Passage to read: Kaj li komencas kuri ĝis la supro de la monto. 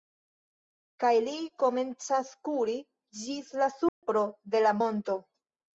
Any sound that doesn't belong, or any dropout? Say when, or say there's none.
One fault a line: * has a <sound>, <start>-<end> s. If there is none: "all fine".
* has a dropout, 3.9-4.0 s